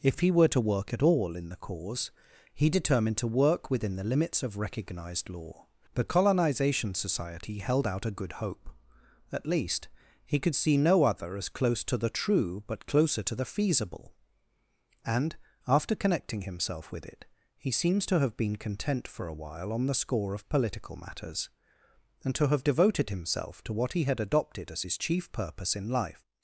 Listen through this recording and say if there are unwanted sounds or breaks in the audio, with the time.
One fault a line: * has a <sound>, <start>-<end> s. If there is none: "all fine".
all fine